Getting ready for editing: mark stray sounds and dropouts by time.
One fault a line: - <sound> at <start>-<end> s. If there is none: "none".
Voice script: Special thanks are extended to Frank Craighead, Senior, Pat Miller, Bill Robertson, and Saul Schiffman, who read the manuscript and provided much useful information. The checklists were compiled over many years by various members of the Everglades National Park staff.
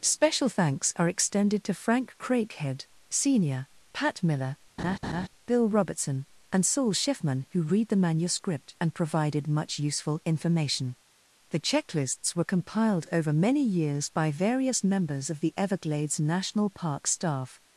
- laugh at 4.8-5.3 s